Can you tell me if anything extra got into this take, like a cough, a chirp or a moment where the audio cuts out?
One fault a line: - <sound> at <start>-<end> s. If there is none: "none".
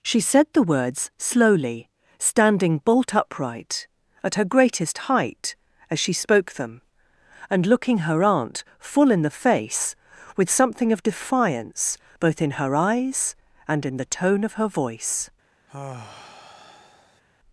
- sigh at 15.7-17.2 s